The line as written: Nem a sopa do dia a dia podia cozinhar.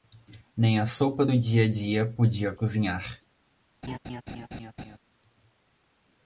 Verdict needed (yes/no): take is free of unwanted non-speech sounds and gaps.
no